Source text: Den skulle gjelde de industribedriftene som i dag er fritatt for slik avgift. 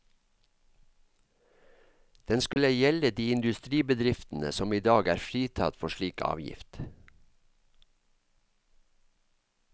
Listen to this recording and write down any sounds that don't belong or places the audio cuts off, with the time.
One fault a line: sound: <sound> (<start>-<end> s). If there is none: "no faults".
sound: dropout (2.5-2.6 s)